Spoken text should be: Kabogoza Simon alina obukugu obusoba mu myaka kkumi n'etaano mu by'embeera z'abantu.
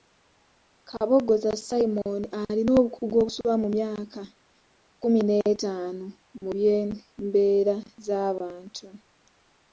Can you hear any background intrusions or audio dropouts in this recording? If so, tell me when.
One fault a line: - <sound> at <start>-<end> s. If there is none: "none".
none